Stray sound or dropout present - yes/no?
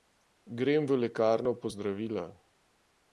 no